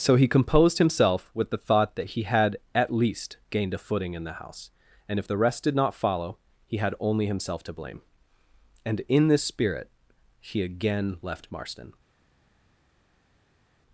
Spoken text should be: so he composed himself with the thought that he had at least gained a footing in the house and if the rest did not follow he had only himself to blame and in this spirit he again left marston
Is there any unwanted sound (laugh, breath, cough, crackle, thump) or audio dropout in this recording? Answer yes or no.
no